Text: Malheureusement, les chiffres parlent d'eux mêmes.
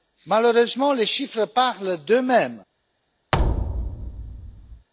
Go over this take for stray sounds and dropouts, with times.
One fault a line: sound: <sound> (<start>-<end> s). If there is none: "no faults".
sound: thud (3.3-4.9 s)